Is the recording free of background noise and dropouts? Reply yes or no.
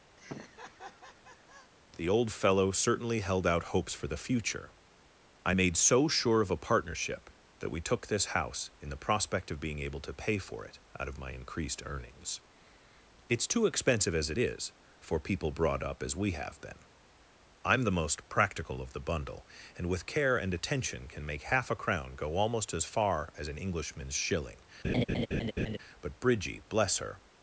no